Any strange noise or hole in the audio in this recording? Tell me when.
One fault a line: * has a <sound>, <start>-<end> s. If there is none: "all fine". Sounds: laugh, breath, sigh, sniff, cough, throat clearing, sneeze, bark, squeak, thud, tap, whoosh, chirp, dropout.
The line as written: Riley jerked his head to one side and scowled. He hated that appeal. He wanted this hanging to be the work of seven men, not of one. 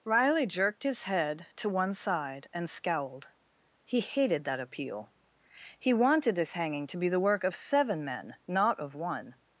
all fine